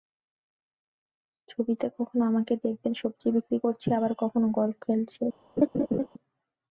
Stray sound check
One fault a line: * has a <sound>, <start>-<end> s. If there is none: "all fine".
* has a laugh, 5.6-6.1 s